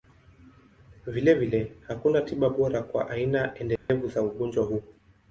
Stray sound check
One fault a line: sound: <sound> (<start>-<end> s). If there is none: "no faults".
sound: dropout (3.8-3.9 s)